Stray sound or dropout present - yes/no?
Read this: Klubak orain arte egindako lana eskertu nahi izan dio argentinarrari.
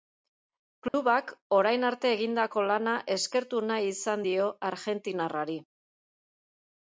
yes